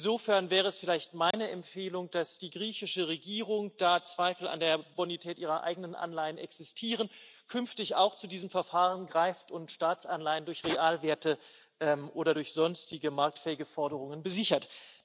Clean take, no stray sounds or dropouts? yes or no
no